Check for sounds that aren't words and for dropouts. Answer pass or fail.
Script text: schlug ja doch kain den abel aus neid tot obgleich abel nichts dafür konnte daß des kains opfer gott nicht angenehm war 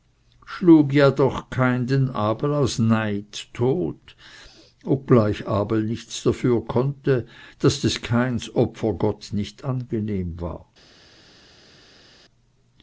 pass